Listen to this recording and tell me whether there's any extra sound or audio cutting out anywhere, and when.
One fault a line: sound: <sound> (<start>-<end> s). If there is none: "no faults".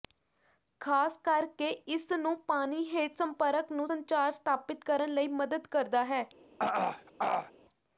sound: throat clearing (6.6-7.5 s)